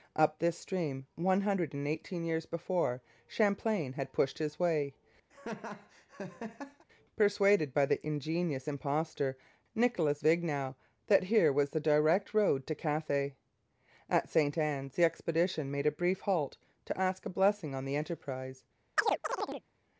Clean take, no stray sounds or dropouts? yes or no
no